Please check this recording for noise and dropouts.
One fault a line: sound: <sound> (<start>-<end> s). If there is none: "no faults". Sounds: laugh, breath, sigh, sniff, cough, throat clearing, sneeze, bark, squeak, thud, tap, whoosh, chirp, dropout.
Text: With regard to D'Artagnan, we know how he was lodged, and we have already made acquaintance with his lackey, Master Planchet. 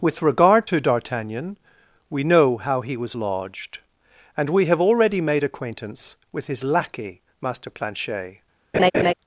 sound: laugh (8.7-9.1 s)